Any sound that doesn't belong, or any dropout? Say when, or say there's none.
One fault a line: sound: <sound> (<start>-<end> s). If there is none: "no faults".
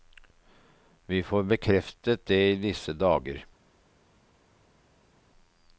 no faults